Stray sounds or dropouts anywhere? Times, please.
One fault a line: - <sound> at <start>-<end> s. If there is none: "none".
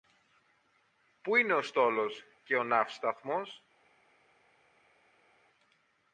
none